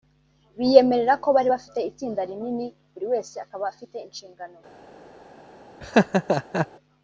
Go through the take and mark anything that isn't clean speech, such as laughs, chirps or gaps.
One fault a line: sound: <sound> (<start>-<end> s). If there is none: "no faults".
sound: laugh (5.8-6.7 s)